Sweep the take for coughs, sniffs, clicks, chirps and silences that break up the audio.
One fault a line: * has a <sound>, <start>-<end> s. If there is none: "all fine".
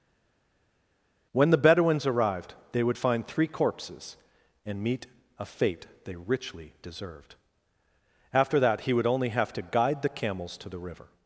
all fine